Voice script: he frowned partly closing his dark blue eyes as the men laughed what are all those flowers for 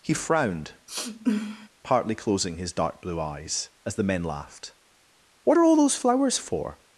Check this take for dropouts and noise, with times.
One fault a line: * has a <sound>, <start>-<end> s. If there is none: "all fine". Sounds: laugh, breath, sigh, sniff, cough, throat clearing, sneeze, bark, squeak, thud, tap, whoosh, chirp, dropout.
* has a sniff, 0.9-1.7 s